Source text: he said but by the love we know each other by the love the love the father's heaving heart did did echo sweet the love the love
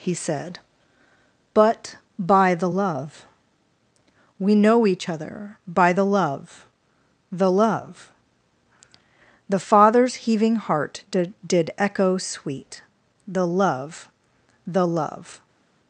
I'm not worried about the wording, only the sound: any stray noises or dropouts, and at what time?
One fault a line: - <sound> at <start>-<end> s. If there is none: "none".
none